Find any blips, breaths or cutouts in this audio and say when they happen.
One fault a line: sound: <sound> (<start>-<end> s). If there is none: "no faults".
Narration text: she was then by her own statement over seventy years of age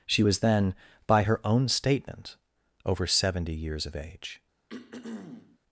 sound: throat clearing (4.7-5.6 s)